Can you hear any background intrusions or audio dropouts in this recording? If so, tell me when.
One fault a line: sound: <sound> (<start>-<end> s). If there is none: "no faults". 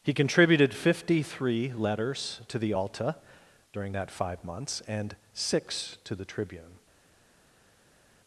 no faults